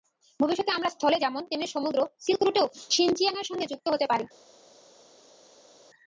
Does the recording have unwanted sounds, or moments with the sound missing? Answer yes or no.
no